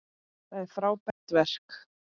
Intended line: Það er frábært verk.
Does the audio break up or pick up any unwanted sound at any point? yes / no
yes